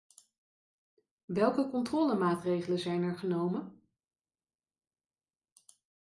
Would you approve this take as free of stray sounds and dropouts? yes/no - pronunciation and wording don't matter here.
yes